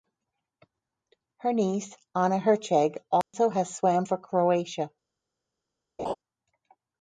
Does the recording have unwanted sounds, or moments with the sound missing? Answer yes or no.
yes